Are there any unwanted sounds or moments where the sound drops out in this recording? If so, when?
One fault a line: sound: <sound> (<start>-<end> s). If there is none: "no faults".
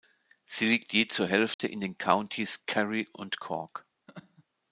sound: dropout (1.5-1.6 s)
sound: laugh (4.1-4.4 s)